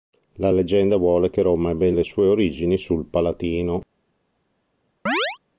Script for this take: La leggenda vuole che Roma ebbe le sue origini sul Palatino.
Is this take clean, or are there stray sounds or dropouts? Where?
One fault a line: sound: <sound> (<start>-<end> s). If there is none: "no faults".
sound: chirp (5.1-5.4 s)